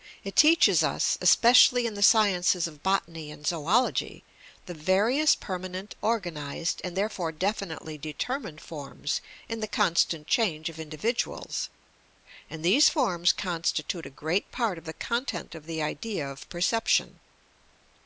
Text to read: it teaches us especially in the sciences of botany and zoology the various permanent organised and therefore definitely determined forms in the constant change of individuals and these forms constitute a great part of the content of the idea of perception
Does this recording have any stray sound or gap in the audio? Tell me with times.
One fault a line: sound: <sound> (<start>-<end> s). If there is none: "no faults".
no faults